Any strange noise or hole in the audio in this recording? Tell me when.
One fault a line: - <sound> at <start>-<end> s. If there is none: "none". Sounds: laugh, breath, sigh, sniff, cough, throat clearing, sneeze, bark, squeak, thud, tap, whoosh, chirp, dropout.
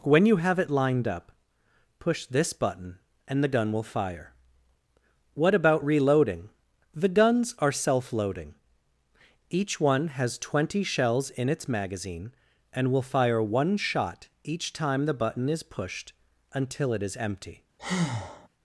- breath at 17.8-18.5 s